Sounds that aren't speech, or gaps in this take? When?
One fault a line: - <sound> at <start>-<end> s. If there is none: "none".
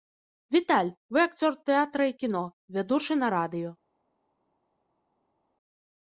none